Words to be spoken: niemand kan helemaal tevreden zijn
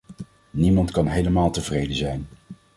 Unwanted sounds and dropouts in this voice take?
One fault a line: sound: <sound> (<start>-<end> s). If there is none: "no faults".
no faults